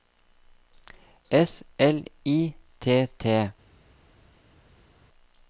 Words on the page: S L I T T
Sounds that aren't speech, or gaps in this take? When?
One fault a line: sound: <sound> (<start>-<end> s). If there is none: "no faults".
no faults